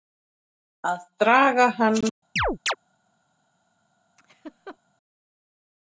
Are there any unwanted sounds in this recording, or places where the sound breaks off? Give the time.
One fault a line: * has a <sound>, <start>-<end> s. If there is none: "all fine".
* has a chirp, 2.4-2.8 s
* has a laugh, 4.2-4.8 s